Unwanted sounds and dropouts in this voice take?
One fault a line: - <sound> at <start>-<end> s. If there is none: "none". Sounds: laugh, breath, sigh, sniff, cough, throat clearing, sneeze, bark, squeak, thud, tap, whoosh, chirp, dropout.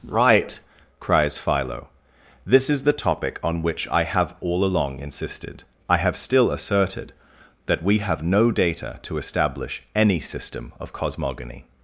none